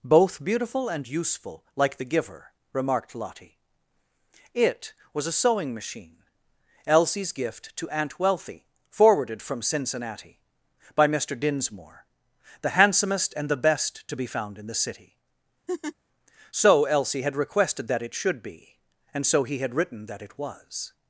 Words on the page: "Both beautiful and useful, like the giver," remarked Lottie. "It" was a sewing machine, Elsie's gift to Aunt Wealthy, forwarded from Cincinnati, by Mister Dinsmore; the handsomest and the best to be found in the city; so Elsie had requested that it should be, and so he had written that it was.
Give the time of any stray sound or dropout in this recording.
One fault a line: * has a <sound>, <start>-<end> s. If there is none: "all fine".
* has a laugh, 15.7-15.9 s